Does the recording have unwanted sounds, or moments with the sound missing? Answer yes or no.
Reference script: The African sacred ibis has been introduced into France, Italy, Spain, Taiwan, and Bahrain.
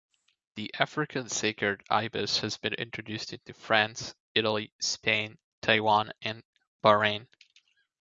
no